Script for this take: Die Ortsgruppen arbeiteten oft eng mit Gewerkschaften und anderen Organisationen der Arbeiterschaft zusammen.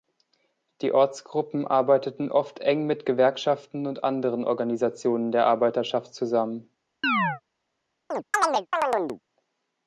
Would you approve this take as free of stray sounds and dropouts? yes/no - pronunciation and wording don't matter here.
no